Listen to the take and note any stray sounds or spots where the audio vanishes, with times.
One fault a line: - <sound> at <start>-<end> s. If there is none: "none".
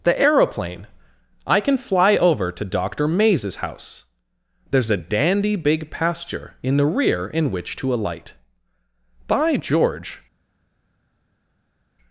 none